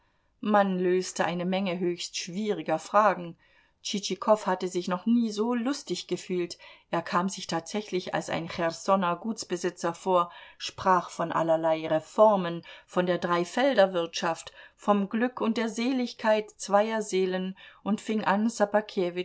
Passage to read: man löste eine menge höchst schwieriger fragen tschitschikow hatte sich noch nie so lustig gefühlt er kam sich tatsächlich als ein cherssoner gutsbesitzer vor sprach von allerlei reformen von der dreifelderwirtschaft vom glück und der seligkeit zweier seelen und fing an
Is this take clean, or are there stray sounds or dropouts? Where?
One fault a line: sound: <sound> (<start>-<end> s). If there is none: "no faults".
no faults